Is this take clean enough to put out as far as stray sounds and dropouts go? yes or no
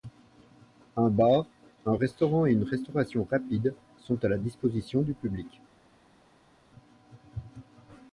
yes